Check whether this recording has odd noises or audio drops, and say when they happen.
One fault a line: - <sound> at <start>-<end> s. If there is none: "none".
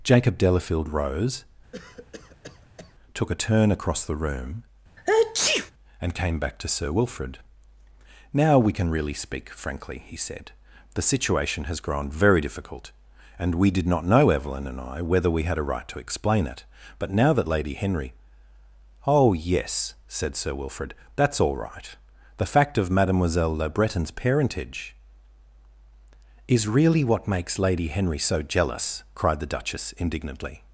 - cough at 1.7-2.9 s
- sneeze at 5.0-5.7 s